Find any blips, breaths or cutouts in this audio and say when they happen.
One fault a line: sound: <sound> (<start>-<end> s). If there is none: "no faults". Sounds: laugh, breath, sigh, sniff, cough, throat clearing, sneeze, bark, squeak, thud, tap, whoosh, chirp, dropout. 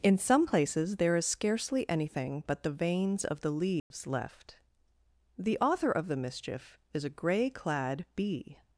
sound: dropout (3.8-3.9 s)